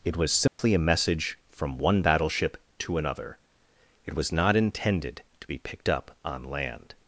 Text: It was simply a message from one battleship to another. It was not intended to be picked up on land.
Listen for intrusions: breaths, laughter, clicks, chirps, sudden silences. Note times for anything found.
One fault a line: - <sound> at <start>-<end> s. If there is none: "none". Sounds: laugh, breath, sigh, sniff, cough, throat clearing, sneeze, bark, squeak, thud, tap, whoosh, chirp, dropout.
- dropout at 0.5-0.6 s